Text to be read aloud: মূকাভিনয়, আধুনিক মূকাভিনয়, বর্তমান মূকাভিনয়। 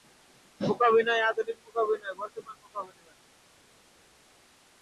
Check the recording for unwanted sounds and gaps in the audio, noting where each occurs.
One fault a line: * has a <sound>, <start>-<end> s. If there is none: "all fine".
all fine